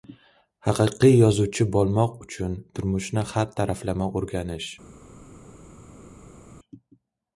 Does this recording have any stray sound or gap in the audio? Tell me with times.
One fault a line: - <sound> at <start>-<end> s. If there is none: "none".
none